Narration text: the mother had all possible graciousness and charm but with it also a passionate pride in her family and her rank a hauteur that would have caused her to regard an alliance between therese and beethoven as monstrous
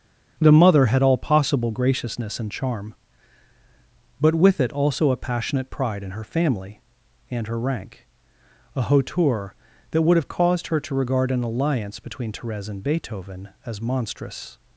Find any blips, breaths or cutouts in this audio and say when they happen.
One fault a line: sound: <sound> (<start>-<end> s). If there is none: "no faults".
no faults